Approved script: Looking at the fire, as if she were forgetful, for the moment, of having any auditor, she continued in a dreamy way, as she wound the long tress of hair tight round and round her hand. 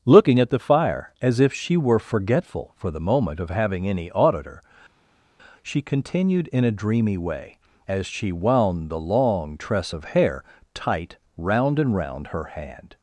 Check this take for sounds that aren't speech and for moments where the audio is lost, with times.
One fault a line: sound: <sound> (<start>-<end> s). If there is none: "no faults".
no faults